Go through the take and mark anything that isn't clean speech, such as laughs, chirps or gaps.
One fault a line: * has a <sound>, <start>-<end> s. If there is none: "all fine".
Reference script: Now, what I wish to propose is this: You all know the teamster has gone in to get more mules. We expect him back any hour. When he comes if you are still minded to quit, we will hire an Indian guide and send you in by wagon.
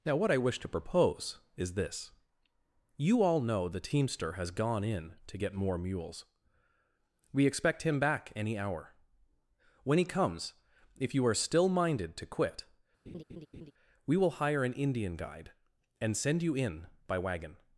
* has a laugh, 13.1-13.7 s